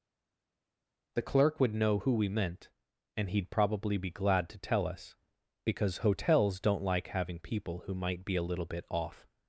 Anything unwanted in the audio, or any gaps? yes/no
no